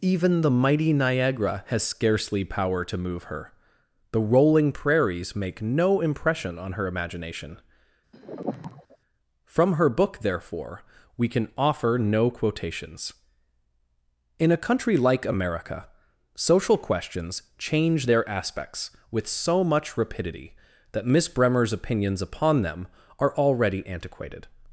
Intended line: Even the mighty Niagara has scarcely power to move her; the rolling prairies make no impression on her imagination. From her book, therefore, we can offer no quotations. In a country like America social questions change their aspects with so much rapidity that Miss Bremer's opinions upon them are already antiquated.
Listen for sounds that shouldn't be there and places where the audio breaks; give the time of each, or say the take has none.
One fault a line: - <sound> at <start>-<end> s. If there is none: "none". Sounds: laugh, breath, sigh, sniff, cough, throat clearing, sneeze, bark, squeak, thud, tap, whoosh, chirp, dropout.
- sigh at 8.1-9.0 s